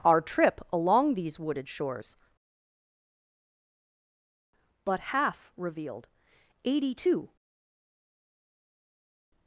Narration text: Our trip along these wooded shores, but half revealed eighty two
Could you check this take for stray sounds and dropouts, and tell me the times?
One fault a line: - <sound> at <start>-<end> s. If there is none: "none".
none